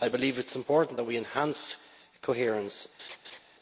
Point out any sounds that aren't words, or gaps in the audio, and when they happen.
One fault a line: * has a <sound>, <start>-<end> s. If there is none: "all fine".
* has a laugh, 3.0-3.4 s